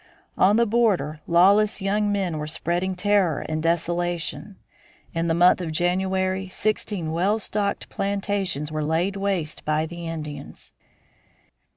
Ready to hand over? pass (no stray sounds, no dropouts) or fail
pass